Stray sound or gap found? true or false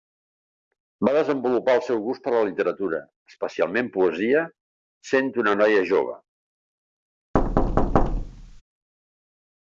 true